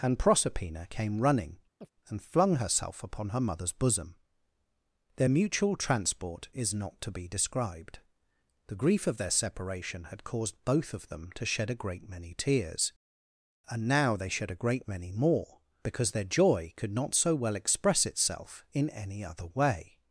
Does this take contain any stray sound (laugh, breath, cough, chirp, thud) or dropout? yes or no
yes